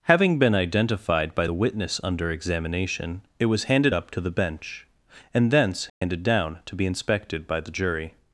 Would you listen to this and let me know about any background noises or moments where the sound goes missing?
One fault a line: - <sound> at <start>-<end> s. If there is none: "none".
- dropout at 5.9-6.0 s